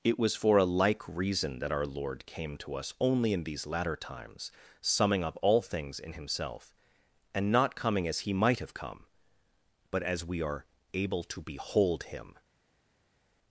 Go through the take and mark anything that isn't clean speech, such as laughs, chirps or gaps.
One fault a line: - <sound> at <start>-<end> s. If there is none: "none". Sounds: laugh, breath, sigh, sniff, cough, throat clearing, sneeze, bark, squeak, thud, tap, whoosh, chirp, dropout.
none